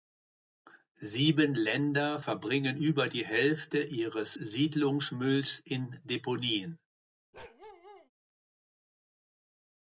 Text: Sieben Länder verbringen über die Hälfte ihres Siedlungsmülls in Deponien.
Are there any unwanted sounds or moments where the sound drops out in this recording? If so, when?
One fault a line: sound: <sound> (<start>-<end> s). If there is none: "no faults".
sound: bark (7.3-8.1 s)